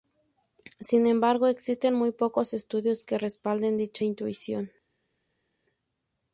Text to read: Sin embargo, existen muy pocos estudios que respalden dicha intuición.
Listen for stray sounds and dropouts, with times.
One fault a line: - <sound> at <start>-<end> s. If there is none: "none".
none